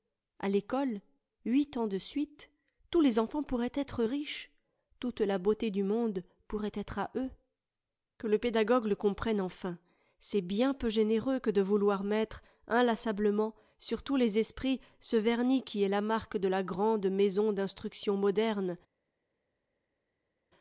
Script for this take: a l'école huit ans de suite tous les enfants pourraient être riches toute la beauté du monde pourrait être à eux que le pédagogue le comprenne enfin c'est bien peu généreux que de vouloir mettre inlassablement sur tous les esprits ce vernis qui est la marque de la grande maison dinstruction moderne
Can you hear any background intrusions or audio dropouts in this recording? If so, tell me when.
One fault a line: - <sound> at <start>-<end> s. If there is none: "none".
none